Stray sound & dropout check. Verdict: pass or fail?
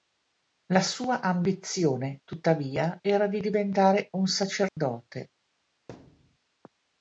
fail